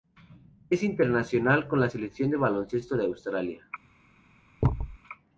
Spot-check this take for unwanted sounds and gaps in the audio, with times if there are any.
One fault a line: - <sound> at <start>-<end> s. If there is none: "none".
- thud at 4.6-5.0 s